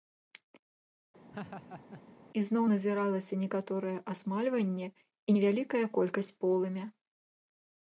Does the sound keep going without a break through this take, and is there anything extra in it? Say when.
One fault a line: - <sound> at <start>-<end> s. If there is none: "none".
- laugh at 1.3-2.0 s